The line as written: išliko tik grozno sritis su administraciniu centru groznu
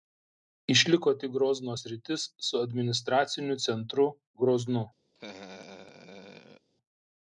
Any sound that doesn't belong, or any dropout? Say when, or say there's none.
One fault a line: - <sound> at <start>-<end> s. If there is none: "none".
- laugh at 5.1-6.7 s